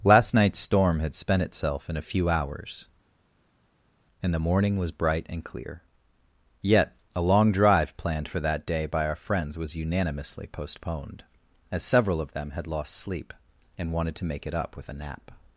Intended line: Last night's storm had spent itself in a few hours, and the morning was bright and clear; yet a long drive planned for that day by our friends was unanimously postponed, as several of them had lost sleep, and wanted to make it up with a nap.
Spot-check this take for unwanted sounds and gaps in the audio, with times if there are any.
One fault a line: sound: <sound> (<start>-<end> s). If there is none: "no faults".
no faults